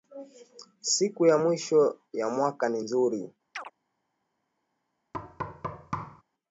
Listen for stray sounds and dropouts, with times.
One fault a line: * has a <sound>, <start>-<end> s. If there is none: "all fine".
* has a chirp, 3.5-3.7 s
* has a thud, 5.1-6.2 s